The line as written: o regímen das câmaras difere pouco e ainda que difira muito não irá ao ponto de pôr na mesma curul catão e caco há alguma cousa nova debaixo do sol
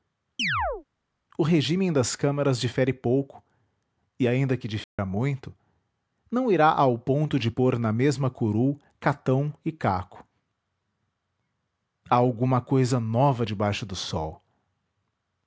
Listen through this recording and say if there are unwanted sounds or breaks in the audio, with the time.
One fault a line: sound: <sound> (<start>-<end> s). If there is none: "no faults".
sound: chirp (0.4-0.8 s)
sound: dropout (4.8-5.0 s)